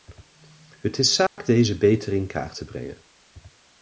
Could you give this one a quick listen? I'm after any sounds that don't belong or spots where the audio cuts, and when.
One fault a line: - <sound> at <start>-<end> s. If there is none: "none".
- dropout at 1.3-1.4 s